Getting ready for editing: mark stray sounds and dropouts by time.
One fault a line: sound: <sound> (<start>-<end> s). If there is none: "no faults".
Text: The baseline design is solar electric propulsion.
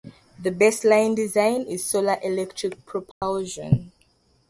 sound: dropout (3.1-3.2 s)